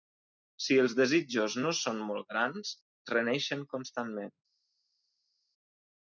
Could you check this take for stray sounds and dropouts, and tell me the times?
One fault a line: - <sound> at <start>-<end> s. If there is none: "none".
none